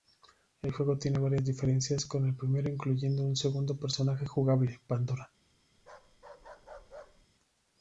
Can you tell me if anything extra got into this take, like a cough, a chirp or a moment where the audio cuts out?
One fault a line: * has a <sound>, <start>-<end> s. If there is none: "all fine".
* has a bark, 5.8-7.3 s